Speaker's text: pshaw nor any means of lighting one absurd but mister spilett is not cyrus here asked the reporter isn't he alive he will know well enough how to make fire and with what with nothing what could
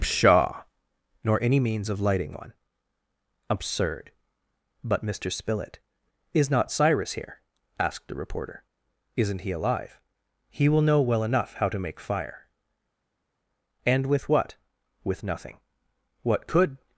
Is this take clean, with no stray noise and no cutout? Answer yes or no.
yes